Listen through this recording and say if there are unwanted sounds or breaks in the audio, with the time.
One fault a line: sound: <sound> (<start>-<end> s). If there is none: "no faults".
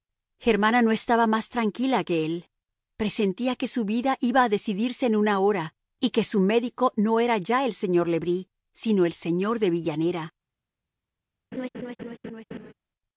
sound: laugh (11.5-12.7 s)